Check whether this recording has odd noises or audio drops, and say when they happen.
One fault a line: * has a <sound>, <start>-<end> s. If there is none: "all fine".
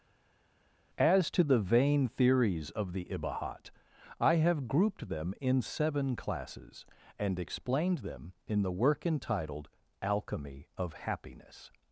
all fine